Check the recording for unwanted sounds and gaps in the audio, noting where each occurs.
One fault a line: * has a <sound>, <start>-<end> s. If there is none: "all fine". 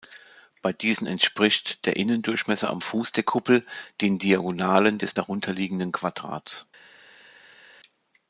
all fine